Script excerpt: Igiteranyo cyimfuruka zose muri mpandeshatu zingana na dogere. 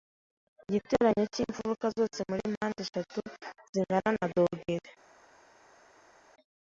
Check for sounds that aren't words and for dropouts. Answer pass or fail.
pass